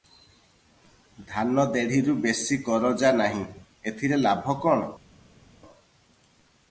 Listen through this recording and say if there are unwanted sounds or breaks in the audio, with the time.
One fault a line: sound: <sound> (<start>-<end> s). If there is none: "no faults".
no faults